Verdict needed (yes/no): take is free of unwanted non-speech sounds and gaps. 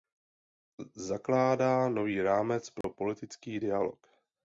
no